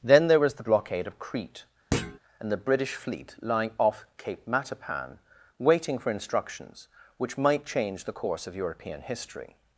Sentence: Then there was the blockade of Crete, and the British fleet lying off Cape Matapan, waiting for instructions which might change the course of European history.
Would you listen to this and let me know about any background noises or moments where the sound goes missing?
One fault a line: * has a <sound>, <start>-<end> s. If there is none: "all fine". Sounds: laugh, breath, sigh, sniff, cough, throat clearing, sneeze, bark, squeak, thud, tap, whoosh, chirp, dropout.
* has a thud, 1.9-2.2 s